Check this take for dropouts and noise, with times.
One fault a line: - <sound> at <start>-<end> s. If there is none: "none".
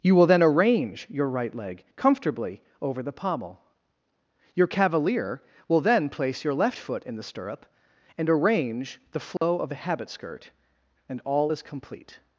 - dropout at 9.4-9.4 s